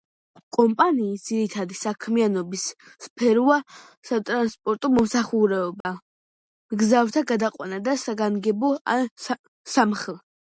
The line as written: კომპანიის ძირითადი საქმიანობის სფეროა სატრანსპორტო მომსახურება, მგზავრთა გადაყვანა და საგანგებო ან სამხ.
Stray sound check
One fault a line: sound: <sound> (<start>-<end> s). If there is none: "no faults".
sound: dropout (5.8-5.8 s)